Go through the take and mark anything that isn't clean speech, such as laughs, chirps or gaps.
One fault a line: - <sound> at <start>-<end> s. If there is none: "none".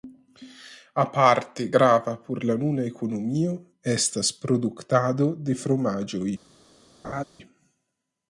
- laugh at 7.0-7.2 s